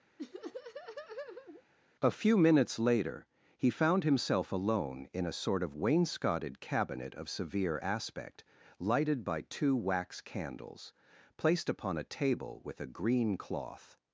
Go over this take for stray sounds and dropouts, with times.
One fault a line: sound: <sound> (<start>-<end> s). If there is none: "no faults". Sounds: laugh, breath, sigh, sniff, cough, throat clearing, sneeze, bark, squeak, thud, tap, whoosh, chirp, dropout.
sound: laugh (0.2-1.6 s)